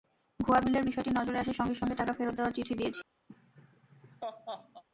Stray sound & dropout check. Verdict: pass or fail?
fail